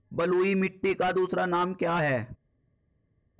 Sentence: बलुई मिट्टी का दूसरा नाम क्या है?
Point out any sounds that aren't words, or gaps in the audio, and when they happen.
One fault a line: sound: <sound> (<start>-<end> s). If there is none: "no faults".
no faults